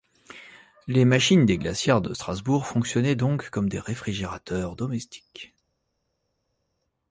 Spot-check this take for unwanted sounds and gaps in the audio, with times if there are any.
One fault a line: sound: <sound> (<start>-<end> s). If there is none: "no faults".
no faults